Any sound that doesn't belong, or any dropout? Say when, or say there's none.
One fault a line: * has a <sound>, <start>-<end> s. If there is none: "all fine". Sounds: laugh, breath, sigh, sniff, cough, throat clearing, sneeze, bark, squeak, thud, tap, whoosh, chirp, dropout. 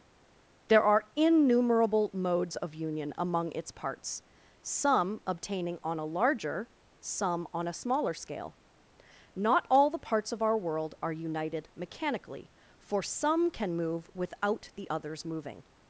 all fine